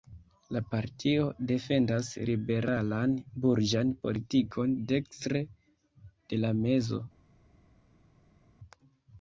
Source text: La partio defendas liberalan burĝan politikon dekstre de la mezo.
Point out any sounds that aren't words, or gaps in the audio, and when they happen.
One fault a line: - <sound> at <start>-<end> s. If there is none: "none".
none